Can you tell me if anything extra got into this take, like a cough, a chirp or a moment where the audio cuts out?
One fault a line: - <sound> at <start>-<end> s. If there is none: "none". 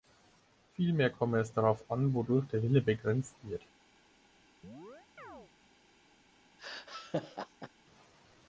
- chirp at 4.6-5.5 s
- laugh at 6.6-7.7 s